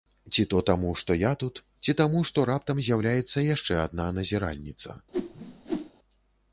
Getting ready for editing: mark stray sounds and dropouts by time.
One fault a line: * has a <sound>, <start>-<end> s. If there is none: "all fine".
* has a whoosh, 5.1-5.9 s